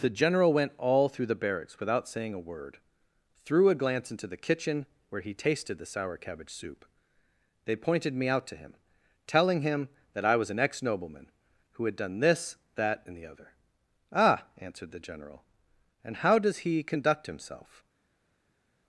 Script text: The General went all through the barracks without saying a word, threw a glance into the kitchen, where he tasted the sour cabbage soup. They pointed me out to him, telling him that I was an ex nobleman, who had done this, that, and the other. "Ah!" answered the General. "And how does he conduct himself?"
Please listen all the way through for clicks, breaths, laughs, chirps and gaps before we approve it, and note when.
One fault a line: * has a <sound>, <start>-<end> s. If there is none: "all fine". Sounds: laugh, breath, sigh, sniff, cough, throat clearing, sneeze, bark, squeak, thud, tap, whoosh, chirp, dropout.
all fine